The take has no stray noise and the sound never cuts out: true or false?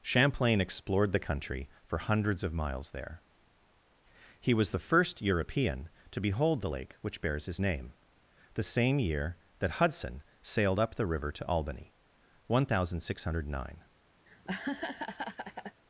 false